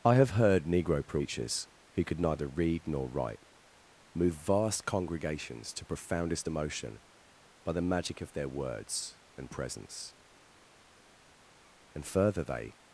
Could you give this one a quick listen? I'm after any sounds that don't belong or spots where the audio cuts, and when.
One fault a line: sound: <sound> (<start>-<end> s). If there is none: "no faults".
no faults